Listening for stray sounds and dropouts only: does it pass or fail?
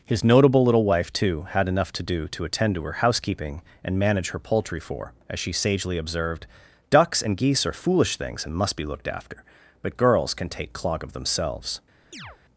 fail